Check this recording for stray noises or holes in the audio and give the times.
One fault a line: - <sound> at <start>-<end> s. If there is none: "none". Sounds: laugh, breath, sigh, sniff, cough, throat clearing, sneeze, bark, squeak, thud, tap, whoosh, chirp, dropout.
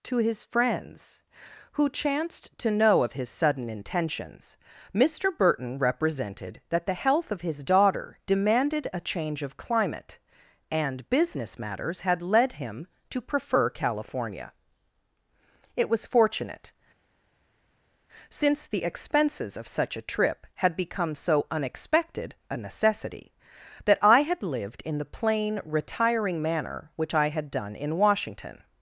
none